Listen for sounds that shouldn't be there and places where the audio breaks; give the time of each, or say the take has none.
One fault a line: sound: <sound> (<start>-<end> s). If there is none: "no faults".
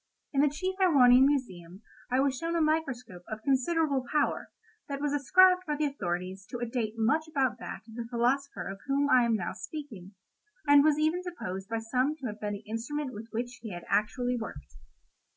no faults